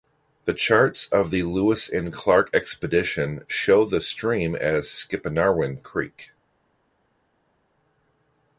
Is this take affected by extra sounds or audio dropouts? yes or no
no